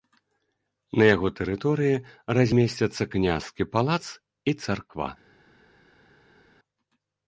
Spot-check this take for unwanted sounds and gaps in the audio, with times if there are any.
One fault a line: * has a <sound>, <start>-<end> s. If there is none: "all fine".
all fine